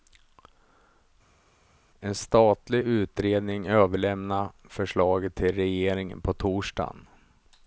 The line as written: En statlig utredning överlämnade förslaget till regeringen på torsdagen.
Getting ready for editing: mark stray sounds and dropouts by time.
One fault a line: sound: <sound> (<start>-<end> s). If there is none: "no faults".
no faults